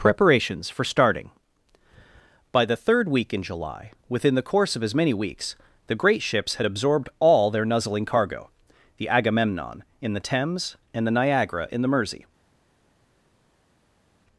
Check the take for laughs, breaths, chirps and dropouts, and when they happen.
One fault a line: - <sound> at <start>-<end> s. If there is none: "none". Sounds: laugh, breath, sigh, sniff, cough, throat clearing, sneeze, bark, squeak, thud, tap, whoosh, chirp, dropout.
none